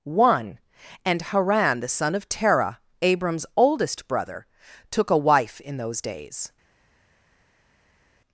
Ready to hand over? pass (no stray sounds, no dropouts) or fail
pass